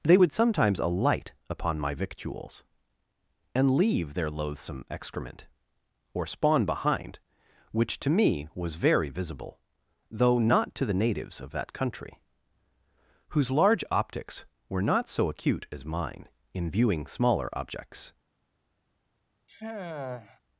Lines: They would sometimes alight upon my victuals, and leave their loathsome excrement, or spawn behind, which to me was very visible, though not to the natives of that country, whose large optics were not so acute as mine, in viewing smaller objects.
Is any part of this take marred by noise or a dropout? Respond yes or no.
yes